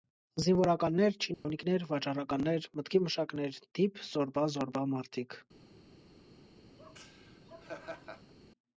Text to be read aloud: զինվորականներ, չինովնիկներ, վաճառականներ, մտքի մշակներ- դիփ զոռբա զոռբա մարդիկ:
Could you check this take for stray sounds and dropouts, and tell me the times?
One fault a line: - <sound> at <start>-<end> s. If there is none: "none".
- dropout at 1.3-1.5 s
- laugh at 6.8-8.3 s